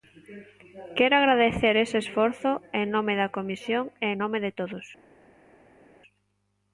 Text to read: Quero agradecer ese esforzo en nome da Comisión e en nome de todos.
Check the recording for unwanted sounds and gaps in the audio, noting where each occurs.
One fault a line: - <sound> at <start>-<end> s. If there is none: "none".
none